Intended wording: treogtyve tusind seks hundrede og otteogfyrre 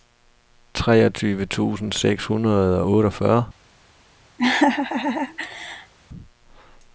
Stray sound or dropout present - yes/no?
yes